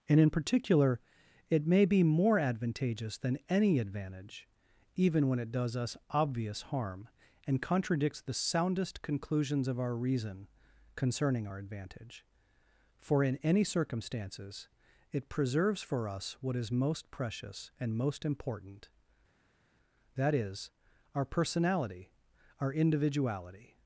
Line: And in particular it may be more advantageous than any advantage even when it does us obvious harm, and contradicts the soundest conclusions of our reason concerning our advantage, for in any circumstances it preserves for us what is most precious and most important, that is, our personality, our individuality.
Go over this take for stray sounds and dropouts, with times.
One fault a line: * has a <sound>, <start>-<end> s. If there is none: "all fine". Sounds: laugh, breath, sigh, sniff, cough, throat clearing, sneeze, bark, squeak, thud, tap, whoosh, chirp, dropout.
all fine